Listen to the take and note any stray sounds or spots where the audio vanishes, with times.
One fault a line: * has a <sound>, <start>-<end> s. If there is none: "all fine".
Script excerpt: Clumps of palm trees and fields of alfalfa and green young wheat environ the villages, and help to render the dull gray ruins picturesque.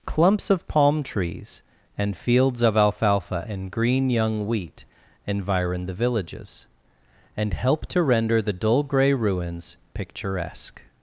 all fine